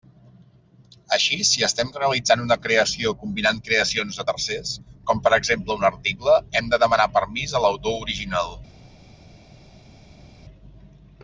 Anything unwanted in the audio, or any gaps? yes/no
no